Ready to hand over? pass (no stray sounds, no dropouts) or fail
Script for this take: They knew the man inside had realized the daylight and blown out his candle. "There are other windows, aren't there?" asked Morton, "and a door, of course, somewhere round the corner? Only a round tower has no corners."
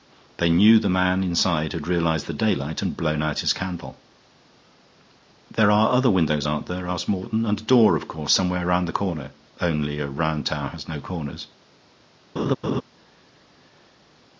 fail